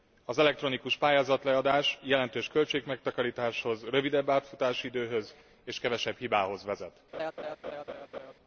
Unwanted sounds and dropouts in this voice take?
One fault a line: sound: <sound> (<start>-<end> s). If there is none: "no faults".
sound: laugh (7.1-8.3 s)